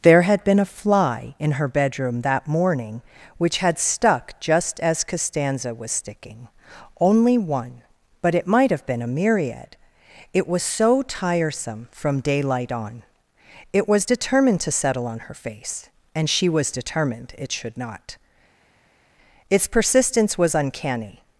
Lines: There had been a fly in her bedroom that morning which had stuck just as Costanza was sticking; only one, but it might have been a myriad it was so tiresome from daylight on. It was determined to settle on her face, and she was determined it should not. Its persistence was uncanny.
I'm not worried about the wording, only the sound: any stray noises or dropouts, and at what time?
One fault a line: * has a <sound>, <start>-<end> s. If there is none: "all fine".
all fine